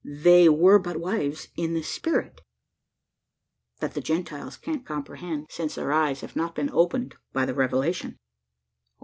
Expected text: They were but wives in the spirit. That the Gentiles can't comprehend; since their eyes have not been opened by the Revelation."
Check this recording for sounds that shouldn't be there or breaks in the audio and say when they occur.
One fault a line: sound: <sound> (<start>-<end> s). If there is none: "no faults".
no faults